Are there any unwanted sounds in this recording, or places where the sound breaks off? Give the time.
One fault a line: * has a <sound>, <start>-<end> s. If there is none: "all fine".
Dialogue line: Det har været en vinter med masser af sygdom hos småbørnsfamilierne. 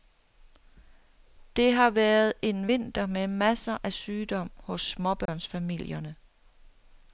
* has a dropout, 5.3-5.3 s